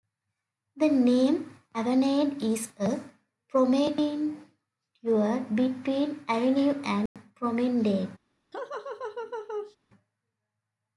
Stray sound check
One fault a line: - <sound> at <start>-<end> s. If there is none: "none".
- dropout at 7.1-7.2 s
- laugh at 8.5-9.8 s